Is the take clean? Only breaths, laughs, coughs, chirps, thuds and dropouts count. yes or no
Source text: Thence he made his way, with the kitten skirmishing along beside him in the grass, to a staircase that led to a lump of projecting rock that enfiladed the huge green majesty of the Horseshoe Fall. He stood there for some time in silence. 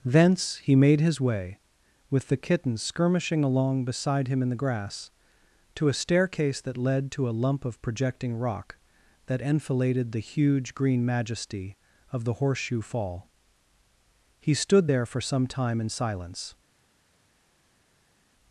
yes